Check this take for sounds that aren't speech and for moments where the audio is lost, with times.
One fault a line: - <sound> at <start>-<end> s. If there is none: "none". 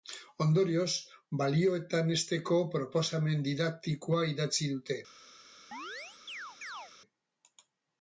- chirp at 5.7-6.9 s